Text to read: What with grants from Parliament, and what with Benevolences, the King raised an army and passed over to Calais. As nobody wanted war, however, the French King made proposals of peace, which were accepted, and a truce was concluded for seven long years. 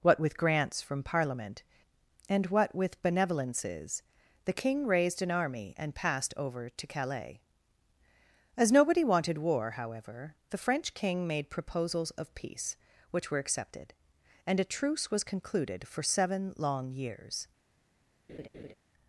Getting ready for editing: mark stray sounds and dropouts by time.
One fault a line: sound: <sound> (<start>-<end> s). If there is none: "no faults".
sound: laugh (18.3-18.7 s)